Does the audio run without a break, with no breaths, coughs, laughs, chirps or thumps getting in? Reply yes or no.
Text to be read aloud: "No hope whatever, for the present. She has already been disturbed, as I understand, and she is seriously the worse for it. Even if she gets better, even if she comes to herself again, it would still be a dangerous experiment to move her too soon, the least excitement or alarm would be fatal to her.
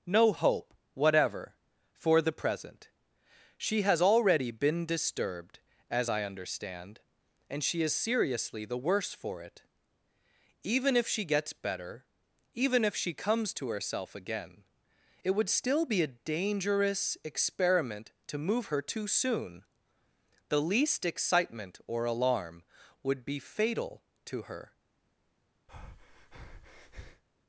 no